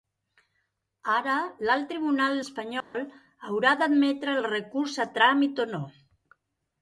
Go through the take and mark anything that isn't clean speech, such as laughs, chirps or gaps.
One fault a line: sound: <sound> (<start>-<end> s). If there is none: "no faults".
sound: dropout (2.8-2.9 s)